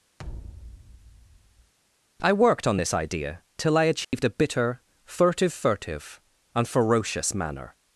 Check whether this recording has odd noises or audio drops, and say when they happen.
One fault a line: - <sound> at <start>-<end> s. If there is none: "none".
- thud at 0.2-1.7 s
- dropout at 4.0-4.1 s